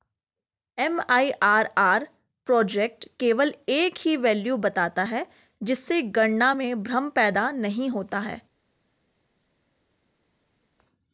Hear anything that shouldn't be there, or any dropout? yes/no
no